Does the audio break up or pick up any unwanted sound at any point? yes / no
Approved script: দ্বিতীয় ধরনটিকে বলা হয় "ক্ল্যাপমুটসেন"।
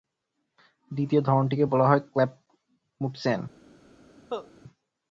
yes